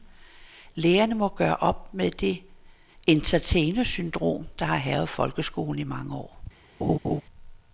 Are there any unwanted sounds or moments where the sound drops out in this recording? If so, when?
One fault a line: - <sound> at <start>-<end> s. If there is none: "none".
- laugh at 6.8-7.2 s